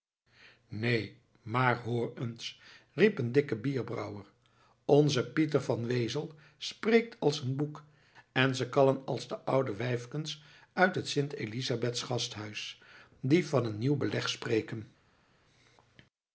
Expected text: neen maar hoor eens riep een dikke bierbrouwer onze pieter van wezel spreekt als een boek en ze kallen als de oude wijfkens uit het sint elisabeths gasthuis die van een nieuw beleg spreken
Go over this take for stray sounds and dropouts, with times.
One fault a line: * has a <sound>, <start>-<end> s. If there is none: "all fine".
all fine